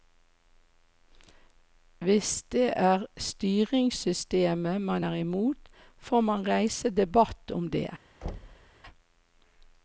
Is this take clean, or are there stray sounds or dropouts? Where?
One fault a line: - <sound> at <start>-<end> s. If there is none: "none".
- thud at 8.2-8.7 s